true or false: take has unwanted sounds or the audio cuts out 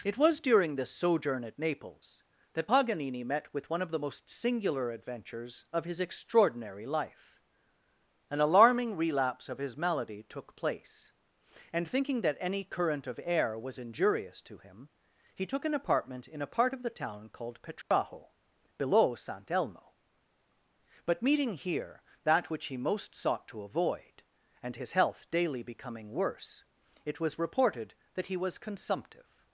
true